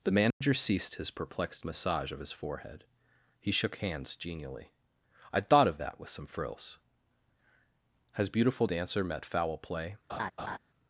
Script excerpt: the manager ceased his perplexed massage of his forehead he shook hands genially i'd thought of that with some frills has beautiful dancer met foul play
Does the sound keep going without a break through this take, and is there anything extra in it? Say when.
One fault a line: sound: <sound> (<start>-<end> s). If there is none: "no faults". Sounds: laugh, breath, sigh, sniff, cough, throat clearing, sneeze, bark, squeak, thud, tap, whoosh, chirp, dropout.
sound: dropout (0.3-0.4 s)
sound: laugh (10.1-10.6 s)